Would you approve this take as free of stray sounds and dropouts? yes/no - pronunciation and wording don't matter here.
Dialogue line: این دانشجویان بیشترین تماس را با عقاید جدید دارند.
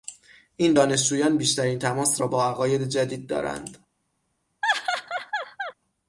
no